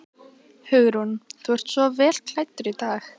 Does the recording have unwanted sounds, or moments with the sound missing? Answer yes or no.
no